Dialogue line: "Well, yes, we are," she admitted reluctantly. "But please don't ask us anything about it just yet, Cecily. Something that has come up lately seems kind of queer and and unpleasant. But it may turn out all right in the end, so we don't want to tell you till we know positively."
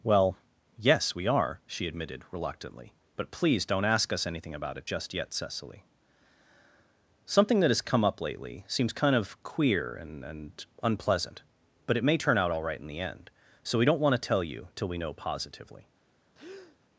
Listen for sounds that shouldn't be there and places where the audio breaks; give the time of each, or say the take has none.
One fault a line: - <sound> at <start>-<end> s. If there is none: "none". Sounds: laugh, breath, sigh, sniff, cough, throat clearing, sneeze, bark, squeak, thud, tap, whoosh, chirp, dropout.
- breath at 16.3-16.8 s